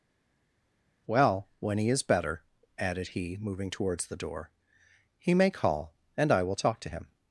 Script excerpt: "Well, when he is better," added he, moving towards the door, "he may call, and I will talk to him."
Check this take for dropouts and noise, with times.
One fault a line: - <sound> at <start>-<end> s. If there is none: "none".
none